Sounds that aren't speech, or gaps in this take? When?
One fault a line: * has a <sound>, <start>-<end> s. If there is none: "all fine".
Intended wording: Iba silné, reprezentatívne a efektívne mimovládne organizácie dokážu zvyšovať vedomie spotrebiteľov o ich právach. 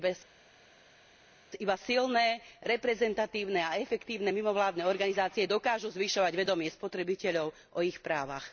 all fine